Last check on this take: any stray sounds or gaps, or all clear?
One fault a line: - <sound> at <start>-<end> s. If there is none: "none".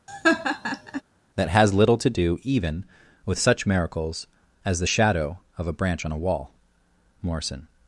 - laugh at 0.1-1.0 s